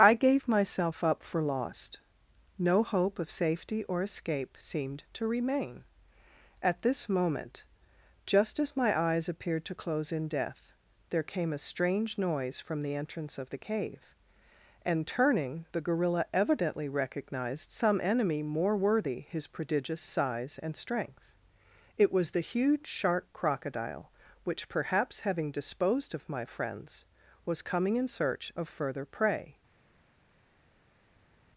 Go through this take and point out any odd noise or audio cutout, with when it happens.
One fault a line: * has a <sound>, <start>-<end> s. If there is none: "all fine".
all fine